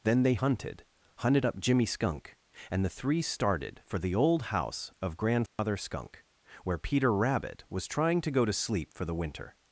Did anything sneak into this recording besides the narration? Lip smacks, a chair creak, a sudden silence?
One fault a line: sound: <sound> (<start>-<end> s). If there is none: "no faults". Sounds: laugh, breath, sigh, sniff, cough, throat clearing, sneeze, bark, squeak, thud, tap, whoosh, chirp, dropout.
sound: dropout (5.5-5.6 s)